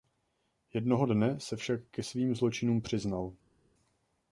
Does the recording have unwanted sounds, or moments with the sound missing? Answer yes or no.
no